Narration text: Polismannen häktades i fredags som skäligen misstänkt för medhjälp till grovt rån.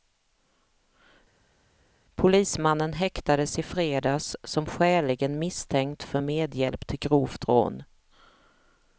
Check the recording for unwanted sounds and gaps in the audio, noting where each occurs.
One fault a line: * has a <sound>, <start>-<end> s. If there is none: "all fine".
all fine